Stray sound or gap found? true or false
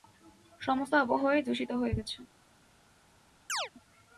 true